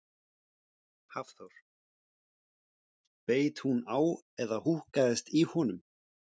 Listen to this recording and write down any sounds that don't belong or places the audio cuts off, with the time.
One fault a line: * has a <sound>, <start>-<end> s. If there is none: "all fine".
all fine